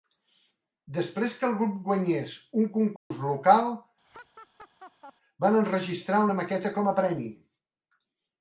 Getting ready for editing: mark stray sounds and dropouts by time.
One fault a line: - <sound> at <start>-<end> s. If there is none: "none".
- dropout at 3.0-3.1 s
- laugh at 4.0-5.1 s